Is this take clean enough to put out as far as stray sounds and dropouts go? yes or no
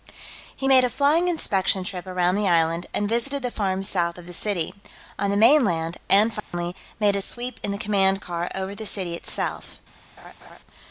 no